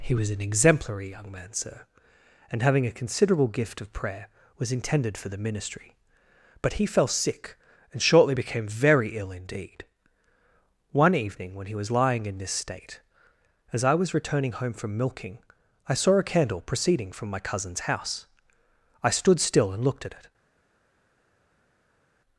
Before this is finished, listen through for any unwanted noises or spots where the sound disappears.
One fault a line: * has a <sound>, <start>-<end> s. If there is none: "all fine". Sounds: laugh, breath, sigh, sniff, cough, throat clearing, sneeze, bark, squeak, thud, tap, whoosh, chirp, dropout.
all fine